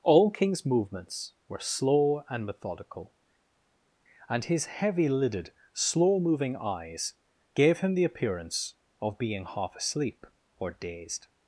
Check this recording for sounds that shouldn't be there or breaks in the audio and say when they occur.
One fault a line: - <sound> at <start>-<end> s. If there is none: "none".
none